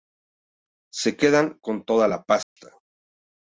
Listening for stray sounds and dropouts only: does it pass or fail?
fail